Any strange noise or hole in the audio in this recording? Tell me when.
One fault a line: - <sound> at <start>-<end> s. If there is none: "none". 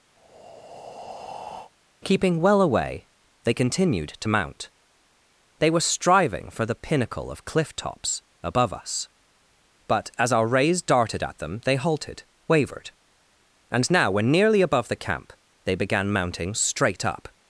- breath at 0.2-1.7 s